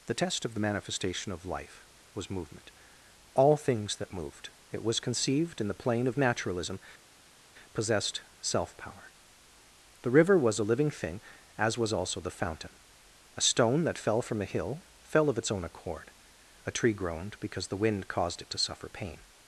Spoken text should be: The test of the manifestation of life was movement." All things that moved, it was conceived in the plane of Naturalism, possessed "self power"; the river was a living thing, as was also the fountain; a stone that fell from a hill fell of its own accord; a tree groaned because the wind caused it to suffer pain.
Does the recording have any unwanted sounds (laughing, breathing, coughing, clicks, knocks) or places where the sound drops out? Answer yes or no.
no